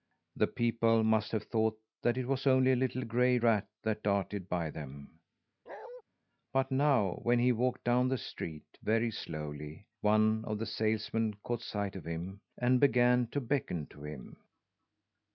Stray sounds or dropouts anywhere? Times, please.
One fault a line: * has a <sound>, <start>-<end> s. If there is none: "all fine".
* has a bark, 5.7-6.0 s